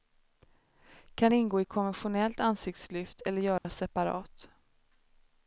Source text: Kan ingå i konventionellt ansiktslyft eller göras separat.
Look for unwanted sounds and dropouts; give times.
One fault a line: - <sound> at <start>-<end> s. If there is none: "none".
- dropout at 3.6-3.6 s